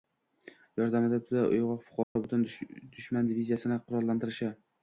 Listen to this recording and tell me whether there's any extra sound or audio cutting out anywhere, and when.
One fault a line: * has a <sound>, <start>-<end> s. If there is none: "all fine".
* has a dropout, 2.0-2.2 s